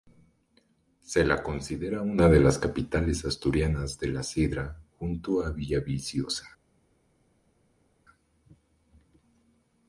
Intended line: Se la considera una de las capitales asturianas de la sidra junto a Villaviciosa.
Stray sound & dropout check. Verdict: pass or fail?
pass